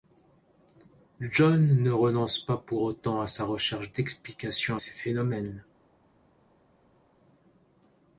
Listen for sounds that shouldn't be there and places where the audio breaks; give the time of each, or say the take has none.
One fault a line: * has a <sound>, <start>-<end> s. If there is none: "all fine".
all fine